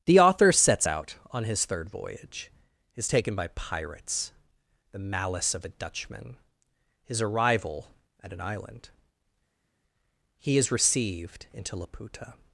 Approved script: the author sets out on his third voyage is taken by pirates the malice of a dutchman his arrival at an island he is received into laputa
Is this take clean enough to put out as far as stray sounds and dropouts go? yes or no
yes